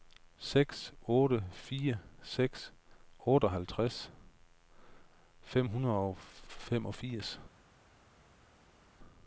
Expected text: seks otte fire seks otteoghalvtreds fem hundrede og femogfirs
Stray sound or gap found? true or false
false